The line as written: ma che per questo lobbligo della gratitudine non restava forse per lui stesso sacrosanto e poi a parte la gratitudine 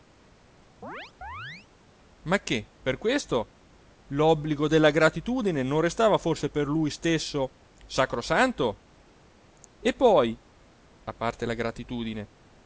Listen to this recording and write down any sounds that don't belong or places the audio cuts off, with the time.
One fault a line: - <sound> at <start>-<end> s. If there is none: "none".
- chirp at 0.8-1.7 s